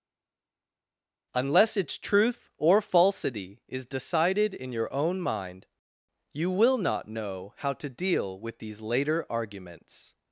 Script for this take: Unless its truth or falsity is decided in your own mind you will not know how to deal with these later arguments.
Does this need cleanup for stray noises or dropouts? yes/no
no